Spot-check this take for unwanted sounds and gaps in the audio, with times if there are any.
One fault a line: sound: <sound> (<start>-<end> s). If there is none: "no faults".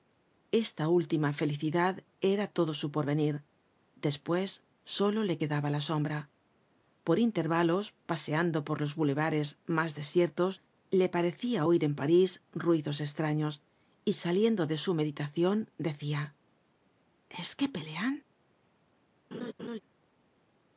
sound: laugh (19.3-19.8 s)